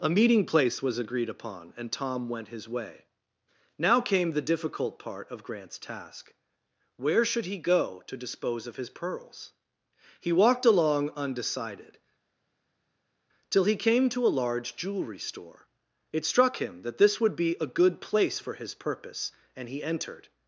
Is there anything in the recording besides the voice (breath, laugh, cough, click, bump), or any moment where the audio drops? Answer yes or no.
no